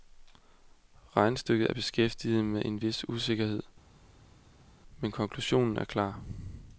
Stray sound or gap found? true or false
false